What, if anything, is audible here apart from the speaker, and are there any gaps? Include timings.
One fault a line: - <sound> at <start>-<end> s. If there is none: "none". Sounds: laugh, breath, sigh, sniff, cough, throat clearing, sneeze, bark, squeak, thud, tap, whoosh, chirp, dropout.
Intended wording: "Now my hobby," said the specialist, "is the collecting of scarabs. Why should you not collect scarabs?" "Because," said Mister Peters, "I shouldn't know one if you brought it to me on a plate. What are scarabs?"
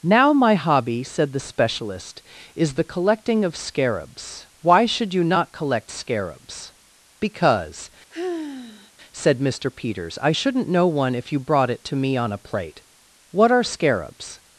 - sigh at 8.1-8.9 s